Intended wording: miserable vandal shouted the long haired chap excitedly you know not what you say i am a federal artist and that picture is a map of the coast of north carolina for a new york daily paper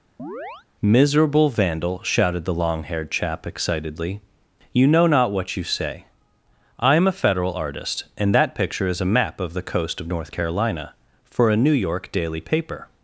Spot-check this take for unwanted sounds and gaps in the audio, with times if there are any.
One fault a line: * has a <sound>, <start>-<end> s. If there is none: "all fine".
* has a chirp, 0.2-0.7 s